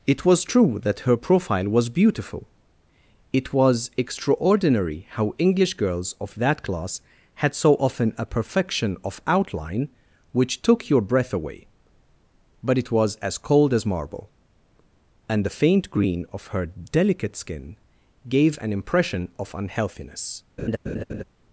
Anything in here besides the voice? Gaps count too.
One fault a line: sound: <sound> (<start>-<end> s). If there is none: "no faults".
sound: laugh (20.6-21.2 s)